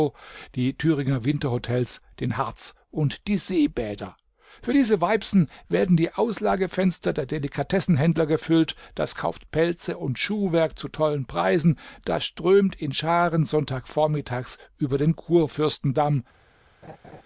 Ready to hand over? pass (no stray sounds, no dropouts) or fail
fail